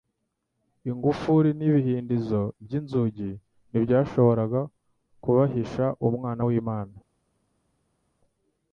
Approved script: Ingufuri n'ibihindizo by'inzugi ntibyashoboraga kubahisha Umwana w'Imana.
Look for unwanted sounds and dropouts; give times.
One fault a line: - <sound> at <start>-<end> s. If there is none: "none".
none